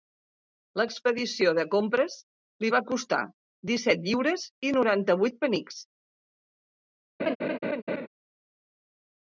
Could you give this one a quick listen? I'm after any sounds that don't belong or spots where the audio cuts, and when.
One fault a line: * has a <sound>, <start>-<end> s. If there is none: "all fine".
* has a laugh, 7.2-8.1 s